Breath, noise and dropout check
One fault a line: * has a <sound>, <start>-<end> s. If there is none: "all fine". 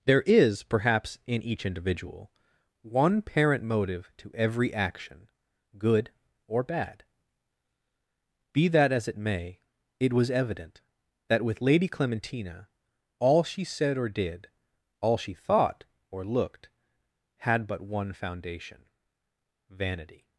all fine